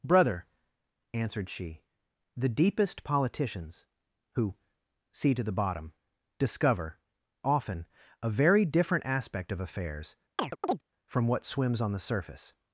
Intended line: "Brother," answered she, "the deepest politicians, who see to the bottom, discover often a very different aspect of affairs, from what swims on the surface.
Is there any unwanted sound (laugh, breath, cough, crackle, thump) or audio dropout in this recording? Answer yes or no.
yes